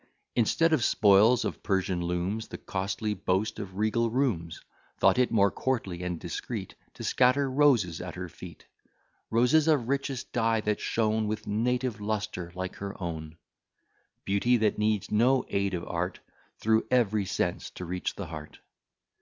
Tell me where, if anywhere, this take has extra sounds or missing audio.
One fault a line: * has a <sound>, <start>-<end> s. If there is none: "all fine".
all fine